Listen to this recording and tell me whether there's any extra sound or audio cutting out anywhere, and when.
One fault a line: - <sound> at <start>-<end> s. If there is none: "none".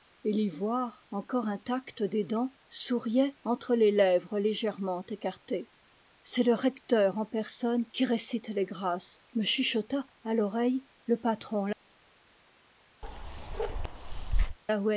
- bark at 13.0-14.6 s